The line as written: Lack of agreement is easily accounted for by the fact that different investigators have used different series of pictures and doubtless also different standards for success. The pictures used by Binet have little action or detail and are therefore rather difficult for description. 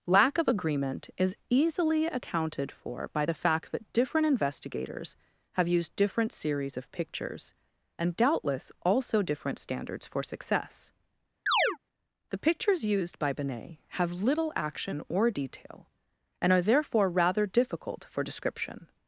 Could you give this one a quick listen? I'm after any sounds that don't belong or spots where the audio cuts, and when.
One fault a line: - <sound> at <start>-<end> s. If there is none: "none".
- chirp at 11.5-11.8 s